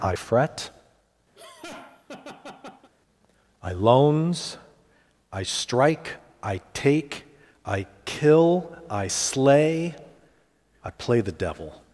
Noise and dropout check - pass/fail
fail